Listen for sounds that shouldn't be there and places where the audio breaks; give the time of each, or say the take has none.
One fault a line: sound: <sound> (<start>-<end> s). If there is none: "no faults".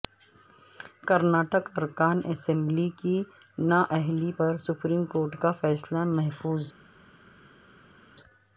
no faults